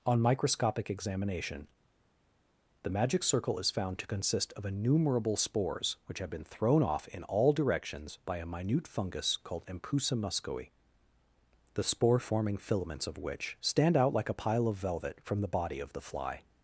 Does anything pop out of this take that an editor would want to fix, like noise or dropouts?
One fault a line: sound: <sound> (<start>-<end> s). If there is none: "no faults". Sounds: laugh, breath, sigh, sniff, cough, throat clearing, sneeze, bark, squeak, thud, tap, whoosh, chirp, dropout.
no faults